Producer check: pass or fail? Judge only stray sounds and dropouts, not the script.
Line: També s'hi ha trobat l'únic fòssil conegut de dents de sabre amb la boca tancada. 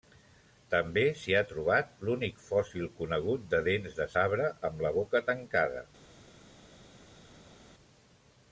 pass